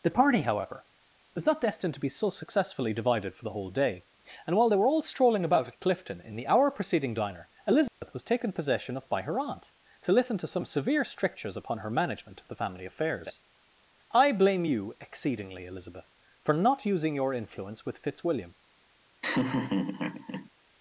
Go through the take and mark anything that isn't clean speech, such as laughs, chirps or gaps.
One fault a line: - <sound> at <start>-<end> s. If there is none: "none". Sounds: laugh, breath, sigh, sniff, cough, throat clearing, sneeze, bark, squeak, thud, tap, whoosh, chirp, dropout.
- dropout at 7.9-8.0 s
- laugh at 19.2-20.5 s